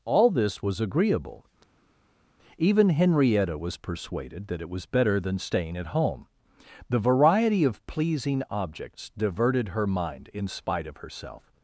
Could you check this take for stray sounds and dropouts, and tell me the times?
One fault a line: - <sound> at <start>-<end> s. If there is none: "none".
none